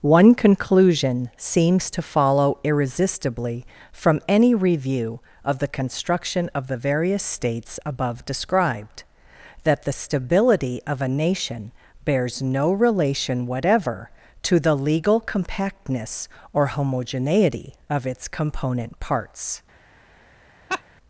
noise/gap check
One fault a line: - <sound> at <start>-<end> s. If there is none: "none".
- laugh at 20.7-20.8 s